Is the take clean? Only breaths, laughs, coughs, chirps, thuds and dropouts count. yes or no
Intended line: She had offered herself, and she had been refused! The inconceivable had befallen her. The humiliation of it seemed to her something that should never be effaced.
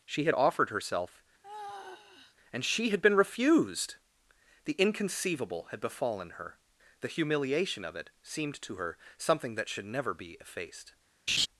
no